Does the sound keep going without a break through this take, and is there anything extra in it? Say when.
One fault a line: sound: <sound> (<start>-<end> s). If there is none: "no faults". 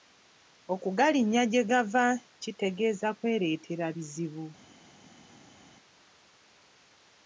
no faults